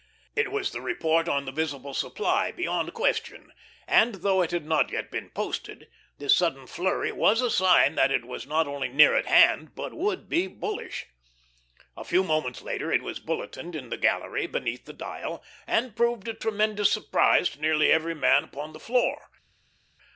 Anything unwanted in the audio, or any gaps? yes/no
no